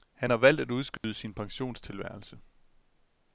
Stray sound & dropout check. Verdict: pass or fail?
fail